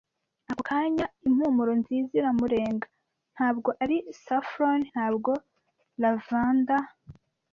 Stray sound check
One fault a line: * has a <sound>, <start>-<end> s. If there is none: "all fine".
all fine